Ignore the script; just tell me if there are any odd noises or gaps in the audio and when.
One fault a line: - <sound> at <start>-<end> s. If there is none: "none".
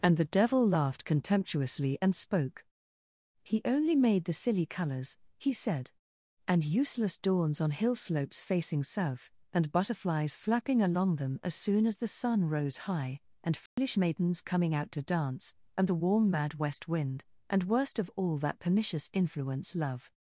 - dropout at 13.7-13.8 s